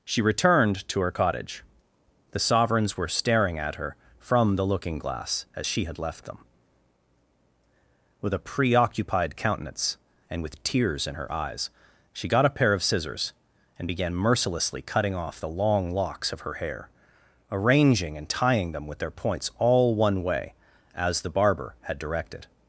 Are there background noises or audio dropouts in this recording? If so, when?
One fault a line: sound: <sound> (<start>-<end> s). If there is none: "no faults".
no faults